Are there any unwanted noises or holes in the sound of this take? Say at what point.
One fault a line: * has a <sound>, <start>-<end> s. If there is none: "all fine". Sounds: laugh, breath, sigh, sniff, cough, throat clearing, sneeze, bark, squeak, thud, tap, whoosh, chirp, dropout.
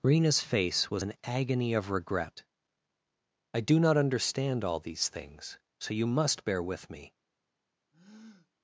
* has a breath, 7.9-8.5 s